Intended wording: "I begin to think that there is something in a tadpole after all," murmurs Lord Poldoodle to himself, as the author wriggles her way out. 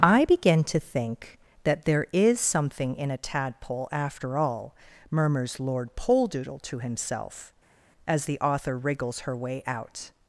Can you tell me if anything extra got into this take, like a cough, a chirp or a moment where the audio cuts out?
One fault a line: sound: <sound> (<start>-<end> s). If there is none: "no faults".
no faults